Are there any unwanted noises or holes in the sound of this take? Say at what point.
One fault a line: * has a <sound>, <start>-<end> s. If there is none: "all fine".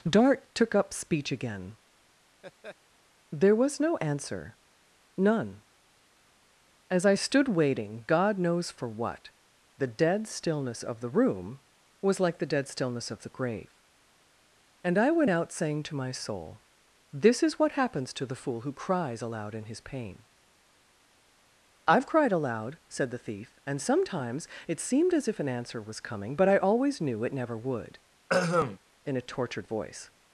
* has a laugh, 2.4-2.8 s
* has a throat clearing, 28.3-28.8 s